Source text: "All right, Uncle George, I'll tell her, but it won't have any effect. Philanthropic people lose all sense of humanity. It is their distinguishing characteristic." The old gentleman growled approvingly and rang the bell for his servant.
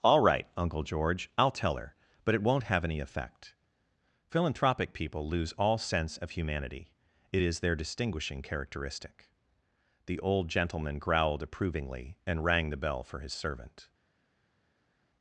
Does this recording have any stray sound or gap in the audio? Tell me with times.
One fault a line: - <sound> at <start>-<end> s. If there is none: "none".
none